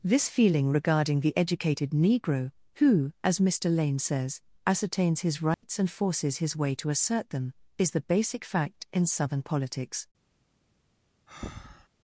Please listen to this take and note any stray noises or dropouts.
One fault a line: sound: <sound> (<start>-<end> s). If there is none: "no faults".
sound: dropout (5.5-5.6 s)
sound: breath (11.3-11.9 s)